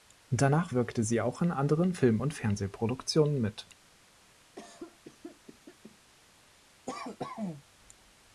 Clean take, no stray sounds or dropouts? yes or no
no